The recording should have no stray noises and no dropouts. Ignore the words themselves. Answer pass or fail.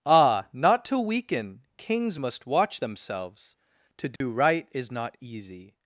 fail